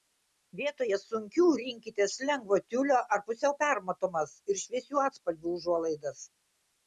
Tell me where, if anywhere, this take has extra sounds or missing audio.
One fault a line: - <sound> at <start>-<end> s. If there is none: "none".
none